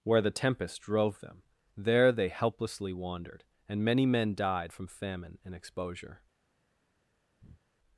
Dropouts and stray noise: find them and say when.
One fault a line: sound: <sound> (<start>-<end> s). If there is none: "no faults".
sound: breath (7.4-7.6 s)